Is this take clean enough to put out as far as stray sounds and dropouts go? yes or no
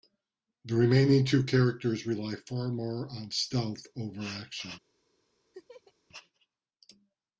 no